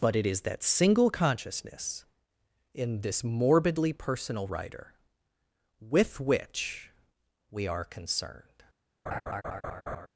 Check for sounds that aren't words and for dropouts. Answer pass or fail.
fail